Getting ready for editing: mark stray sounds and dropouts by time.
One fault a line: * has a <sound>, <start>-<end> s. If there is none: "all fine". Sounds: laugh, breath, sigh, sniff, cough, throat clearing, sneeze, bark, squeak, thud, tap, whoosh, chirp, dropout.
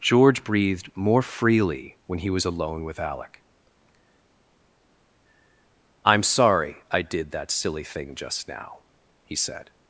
all fine